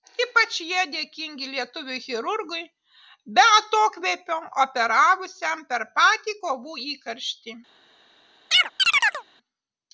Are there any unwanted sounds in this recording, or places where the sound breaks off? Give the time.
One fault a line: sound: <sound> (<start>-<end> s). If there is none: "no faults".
sound: chirp (8.5-9.2 s)